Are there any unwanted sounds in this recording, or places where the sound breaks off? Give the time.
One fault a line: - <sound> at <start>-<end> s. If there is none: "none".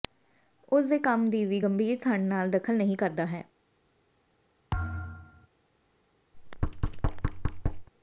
- thud at 4.7-5.5 s
- thud at 6.3-7.9 s